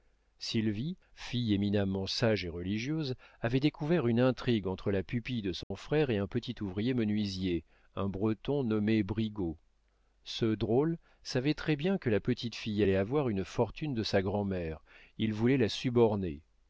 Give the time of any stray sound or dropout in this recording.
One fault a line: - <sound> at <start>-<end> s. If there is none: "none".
- dropout at 5.6-5.7 s